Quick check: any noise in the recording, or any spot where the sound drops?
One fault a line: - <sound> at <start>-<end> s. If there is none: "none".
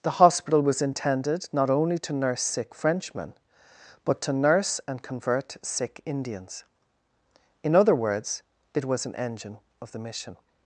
none